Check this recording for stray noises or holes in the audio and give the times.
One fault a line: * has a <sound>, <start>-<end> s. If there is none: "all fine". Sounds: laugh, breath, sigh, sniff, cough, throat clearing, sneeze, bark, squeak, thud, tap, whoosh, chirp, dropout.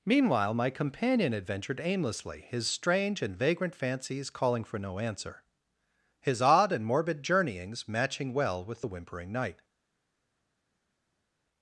all fine